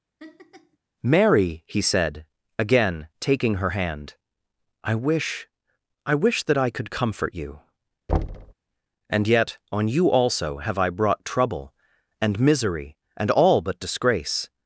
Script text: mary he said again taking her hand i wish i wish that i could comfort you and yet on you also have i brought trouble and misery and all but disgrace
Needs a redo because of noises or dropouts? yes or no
yes